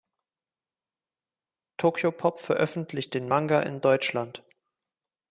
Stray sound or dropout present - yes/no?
no